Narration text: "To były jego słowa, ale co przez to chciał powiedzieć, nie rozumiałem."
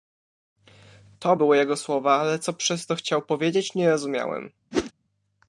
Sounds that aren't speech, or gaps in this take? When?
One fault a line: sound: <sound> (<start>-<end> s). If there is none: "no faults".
sound: whoosh (4.7-4.9 s)